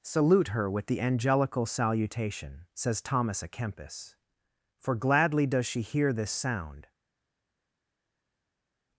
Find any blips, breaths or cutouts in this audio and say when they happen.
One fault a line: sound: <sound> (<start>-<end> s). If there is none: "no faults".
no faults